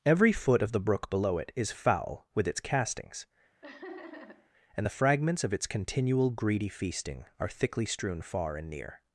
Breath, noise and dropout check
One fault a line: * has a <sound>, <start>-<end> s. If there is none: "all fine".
* has a laugh, 3.6-4.5 s